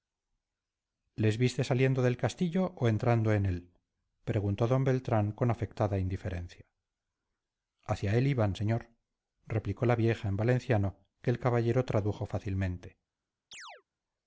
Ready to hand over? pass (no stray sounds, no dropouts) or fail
fail